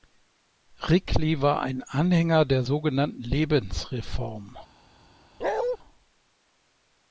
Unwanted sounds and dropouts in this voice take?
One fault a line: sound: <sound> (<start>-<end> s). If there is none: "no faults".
sound: bark (5.4-5.8 s)